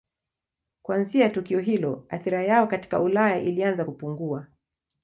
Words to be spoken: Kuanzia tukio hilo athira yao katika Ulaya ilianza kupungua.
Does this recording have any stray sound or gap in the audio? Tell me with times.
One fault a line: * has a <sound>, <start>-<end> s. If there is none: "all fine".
all fine